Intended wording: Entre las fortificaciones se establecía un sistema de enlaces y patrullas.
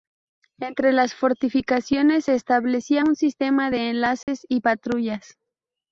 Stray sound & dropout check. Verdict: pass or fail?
fail